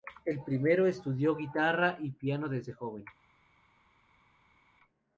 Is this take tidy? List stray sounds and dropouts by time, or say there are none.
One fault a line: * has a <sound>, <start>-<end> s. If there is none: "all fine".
all fine